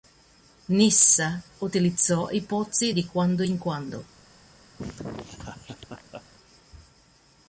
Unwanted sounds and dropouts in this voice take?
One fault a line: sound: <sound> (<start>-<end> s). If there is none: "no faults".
sound: laugh (4.8-6.2 s)